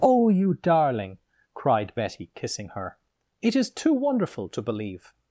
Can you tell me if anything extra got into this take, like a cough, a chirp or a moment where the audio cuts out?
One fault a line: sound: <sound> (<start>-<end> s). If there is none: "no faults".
no faults